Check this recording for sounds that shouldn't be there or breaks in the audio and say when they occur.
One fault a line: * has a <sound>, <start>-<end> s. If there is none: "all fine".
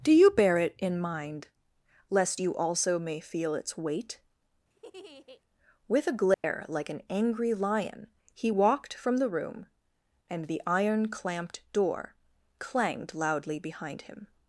* has a laugh, 4.7-5.4 s
* has a dropout, 6.3-6.4 s